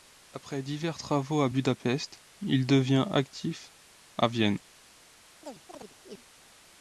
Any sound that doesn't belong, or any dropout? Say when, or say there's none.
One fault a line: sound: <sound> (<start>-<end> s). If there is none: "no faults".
sound: chirp (5.4-6.2 s)